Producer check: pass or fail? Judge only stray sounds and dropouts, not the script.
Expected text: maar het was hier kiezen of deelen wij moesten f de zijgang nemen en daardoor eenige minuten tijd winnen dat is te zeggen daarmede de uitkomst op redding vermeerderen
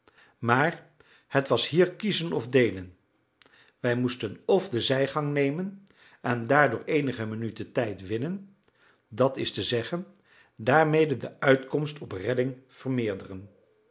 pass